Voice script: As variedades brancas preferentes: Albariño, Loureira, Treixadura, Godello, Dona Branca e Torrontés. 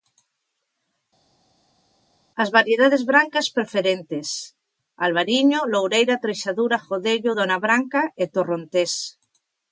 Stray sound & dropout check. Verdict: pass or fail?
pass